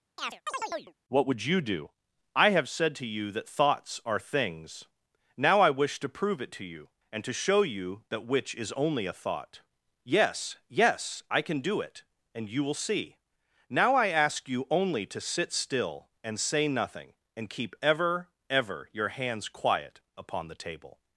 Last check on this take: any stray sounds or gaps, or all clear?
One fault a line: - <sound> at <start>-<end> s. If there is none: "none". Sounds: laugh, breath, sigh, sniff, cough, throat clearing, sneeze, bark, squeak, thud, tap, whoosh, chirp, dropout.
- chirp at 0.2-0.9 s